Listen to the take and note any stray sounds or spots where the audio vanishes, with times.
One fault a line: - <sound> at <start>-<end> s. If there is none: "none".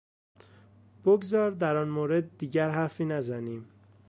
none